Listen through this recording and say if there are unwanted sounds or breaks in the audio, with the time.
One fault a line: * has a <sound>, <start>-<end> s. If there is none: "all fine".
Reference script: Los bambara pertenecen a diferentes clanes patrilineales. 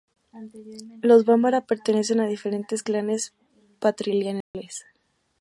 * has a dropout, 4.4-4.5 s